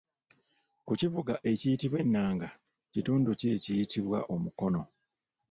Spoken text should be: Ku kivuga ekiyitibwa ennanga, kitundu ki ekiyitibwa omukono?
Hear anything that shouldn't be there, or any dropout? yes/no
no